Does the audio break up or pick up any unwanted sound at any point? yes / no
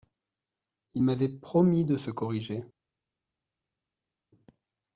no